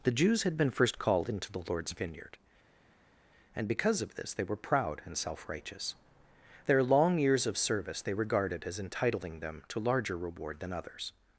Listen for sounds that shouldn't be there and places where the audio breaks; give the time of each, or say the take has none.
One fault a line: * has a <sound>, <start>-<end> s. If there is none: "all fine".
all fine